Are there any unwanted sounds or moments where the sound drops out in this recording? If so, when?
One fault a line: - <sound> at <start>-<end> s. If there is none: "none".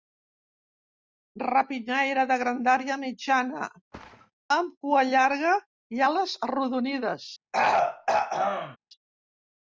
- thud at 3.9-4.3 s
- throat clearing at 7.5-8.8 s